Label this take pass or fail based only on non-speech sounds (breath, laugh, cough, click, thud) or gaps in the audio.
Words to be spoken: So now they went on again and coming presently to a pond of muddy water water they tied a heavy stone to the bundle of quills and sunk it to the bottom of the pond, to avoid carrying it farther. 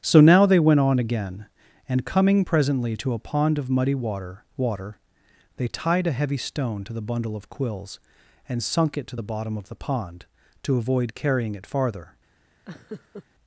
fail